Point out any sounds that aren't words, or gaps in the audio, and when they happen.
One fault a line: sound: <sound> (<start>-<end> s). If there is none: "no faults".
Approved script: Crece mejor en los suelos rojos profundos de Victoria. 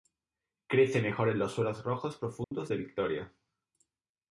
sound: dropout (2.4-2.5 s)